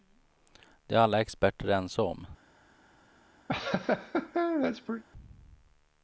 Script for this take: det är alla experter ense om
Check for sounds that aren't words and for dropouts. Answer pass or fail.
fail